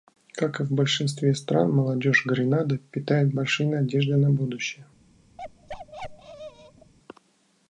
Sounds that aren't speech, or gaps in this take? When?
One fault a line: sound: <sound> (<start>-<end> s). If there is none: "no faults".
sound: bark (5.4-6.9 s)